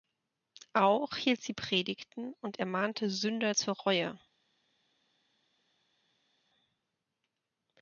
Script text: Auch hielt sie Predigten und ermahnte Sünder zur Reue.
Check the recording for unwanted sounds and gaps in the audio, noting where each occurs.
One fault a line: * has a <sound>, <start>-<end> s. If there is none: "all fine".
all fine